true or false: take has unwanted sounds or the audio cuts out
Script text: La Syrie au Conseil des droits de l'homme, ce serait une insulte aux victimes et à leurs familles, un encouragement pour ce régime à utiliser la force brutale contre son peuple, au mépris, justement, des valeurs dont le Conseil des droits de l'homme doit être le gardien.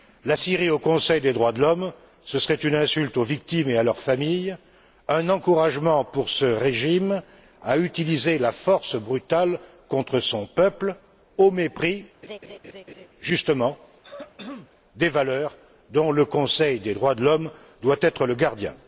true